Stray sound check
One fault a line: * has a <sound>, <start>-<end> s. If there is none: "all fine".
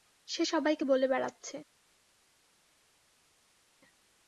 all fine